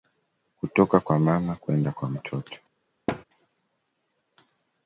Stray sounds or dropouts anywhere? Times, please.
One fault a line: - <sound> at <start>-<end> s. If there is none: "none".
- thud at 3.1-3.2 s